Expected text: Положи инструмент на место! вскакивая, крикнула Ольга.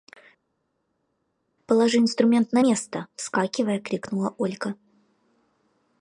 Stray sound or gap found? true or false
false